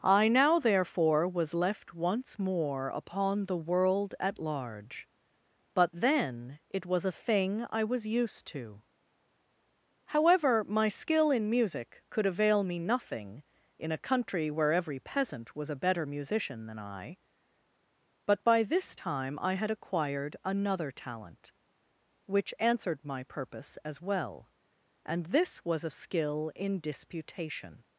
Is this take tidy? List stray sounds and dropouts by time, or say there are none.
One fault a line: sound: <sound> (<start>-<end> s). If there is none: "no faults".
no faults